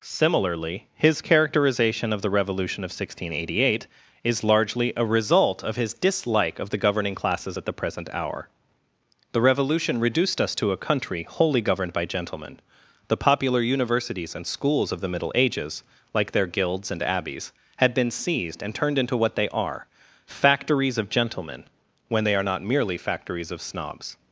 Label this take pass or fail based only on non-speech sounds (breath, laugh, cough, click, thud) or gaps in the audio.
pass